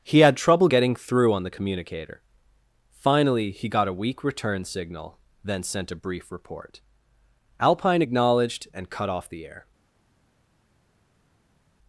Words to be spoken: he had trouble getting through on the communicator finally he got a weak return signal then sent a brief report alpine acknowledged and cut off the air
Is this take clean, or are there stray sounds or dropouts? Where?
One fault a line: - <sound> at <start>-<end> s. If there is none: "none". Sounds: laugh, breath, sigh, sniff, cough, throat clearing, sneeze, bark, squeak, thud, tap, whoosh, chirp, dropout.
none